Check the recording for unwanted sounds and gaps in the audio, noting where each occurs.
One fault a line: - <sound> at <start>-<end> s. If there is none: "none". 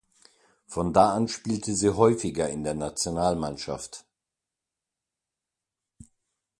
none